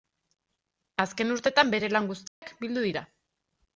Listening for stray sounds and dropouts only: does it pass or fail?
fail